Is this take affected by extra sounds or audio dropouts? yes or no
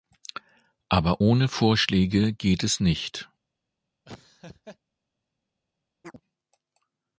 yes